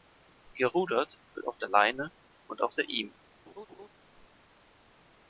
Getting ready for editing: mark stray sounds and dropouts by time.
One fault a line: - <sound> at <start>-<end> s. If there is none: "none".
- laugh at 3.5-3.9 s